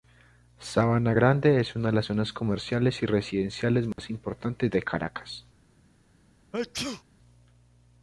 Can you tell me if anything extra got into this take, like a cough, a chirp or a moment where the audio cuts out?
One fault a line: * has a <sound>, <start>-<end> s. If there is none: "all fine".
* has a dropout, 3.9-4.0 s
* has a sneeze, 6.5-7.0 s